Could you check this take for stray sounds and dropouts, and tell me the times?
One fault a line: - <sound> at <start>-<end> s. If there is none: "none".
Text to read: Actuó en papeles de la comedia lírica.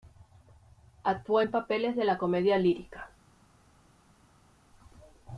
none